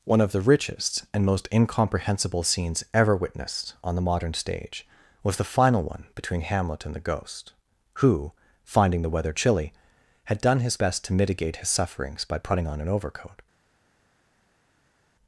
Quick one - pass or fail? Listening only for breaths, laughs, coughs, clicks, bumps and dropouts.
pass